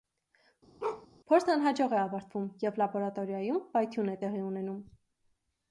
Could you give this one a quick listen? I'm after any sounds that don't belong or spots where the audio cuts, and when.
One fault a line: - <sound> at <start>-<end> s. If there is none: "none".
- bark at 0.8-1.1 s